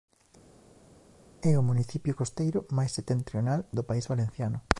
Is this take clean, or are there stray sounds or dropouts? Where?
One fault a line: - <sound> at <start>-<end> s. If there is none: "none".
none